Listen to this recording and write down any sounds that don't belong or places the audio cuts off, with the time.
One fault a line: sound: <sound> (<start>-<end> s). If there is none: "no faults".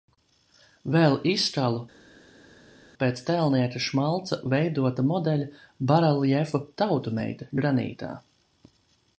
no faults